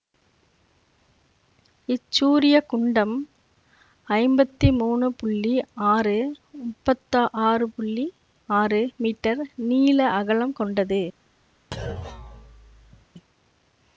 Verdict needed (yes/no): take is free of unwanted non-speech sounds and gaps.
no